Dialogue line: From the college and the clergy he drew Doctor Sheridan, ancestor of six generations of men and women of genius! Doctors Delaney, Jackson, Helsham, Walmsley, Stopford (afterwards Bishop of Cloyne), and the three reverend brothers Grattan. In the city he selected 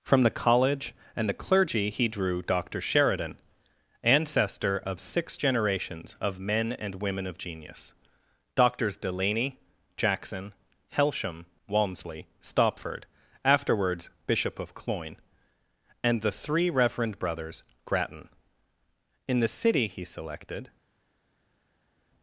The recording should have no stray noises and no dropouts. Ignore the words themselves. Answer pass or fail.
pass